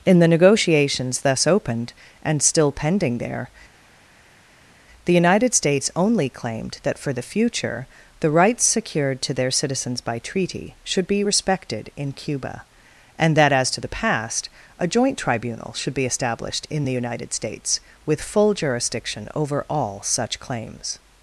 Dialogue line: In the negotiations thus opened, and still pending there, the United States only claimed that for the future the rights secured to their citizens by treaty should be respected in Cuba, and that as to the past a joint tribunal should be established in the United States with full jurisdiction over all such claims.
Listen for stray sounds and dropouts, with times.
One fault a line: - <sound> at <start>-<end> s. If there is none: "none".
none